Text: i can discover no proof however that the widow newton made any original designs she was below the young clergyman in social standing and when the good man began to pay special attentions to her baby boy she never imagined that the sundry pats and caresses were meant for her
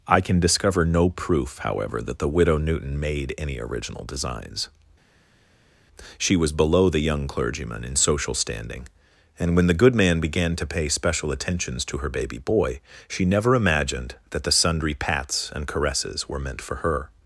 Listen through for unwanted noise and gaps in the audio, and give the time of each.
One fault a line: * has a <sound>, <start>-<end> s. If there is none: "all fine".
all fine